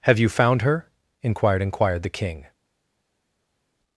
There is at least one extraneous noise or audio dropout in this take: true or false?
false